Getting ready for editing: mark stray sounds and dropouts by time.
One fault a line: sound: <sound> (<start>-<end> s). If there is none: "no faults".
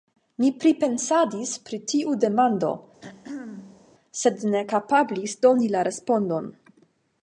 sound: throat clearing (3.0-3.9 s)